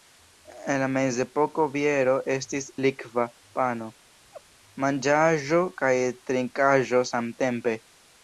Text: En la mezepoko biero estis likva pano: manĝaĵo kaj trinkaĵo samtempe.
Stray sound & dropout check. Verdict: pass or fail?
fail